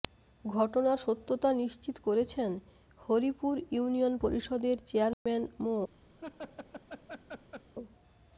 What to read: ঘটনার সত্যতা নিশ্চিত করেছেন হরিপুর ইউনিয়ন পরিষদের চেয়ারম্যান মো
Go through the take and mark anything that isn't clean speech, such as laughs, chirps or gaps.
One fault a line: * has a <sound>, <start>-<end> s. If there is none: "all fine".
* has a dropout, 5.1-5.3 s
* has a laugh, 6.2-7.7 s